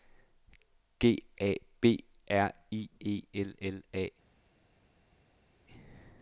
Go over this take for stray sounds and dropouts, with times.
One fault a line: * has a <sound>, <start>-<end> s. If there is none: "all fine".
all fine